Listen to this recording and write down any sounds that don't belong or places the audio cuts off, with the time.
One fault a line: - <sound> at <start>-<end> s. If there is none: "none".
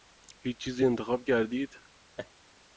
- laugh at 2.2-2.3 s